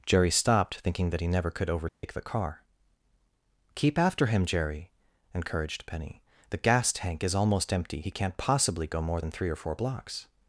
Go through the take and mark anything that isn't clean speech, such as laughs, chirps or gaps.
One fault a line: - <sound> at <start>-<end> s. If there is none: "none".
- dropout at 1.9-2.0 s